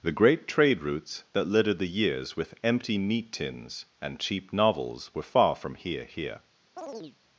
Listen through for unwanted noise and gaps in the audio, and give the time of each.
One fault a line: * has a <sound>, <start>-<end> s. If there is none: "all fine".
* has a chirp, 6.8-7.2 s